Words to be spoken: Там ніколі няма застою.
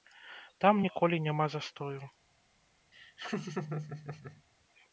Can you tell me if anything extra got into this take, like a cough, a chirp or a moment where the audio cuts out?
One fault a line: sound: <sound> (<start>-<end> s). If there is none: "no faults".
sound: laugh (2.9-4.4 s)